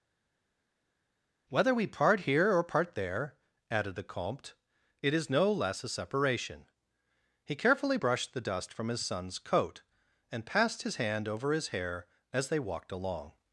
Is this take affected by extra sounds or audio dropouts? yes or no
no